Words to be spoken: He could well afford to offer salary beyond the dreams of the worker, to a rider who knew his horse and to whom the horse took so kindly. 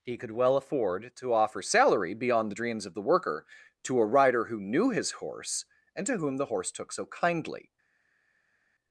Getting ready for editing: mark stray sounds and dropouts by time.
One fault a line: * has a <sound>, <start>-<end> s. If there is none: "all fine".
all fine